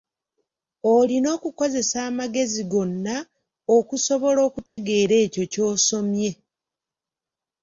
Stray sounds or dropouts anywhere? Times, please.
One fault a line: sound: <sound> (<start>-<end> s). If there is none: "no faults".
sound: dropout (4.7-4.8 s)